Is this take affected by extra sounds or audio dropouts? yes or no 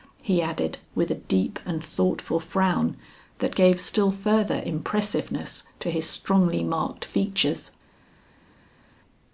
no